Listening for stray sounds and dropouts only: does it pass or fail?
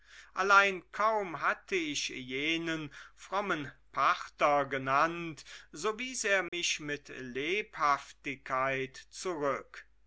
fail